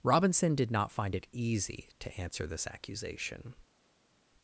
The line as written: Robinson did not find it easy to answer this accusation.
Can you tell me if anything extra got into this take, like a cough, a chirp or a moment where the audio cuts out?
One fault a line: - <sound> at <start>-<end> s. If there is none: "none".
none